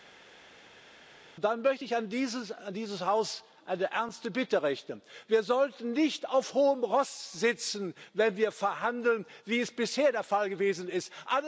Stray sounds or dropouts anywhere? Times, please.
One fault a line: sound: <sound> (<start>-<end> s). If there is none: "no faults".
no faults